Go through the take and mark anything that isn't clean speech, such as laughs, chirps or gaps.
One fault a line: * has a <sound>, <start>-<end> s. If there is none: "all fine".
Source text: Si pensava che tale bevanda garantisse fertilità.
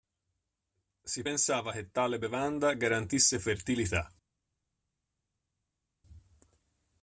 all fine